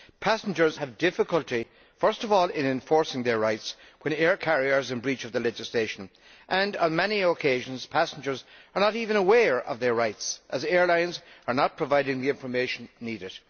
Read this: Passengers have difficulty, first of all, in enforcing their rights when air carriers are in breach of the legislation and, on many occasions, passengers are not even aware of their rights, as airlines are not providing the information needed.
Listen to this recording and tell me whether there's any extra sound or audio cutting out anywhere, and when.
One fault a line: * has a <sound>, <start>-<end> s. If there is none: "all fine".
all fine